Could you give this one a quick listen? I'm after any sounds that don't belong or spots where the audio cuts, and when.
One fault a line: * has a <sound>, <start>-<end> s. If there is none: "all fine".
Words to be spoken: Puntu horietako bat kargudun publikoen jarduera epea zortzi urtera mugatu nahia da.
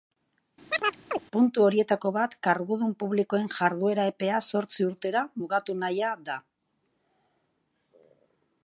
* has a chirp, 0.7-1.2 s